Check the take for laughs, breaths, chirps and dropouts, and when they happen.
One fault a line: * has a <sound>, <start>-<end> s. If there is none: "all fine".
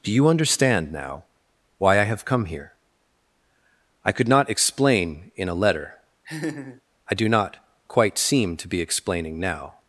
* has a laugh, 6.2-6.8 s